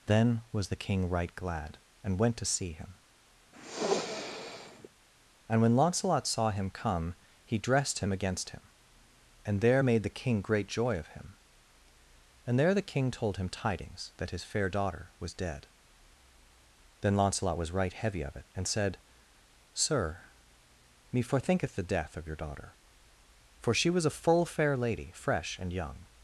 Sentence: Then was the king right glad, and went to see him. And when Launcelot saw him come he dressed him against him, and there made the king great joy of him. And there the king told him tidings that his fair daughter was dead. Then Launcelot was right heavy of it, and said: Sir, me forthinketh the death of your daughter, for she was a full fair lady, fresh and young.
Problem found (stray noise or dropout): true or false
true